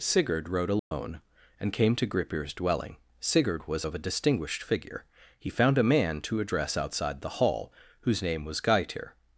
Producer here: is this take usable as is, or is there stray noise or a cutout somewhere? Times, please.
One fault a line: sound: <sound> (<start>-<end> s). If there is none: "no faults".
sound: dropout (0.8-0.9 s)